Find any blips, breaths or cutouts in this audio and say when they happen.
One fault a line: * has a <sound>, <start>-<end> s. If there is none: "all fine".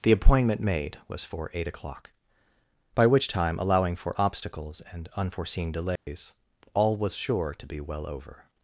* has a dropout, 6.0-6.1 s